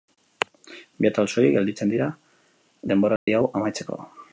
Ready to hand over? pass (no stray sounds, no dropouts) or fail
fail